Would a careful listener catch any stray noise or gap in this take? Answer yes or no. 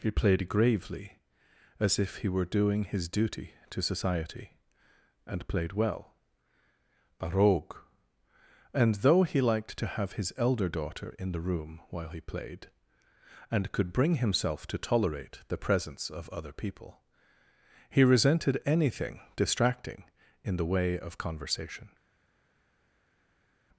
no